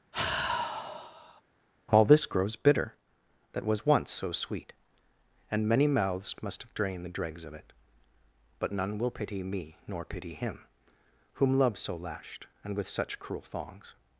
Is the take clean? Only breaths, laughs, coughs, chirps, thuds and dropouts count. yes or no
no